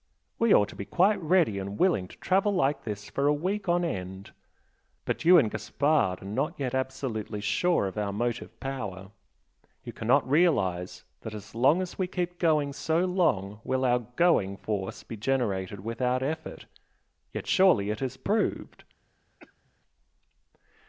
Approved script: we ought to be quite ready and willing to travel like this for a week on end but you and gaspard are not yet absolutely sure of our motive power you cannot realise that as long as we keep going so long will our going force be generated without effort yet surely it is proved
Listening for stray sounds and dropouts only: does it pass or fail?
fail